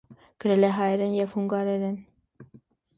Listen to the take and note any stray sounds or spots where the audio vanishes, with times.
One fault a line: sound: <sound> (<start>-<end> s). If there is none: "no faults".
no faults